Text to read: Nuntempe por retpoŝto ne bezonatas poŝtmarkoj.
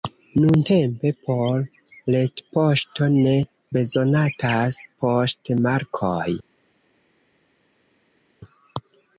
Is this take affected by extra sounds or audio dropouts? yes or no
no